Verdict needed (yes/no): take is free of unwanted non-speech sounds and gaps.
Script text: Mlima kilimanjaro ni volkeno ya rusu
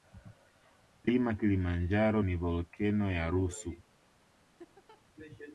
no